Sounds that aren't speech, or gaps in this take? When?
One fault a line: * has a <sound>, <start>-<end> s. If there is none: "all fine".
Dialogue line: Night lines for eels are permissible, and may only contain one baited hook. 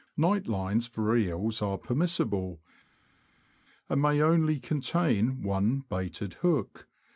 all fine